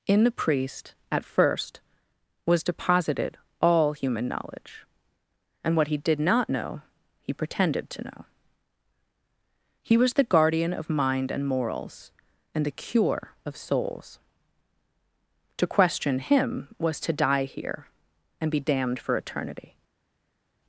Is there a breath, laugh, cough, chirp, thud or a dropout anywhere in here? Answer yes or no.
no